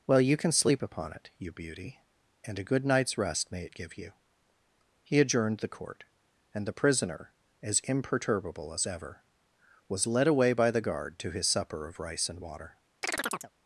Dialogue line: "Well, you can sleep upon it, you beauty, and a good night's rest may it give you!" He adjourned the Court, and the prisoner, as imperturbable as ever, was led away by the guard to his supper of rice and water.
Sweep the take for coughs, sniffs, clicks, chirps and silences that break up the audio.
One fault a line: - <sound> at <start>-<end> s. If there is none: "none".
- chirp at 13.0-13.5 s